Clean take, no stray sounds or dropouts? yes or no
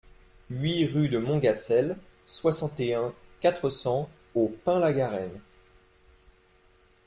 yes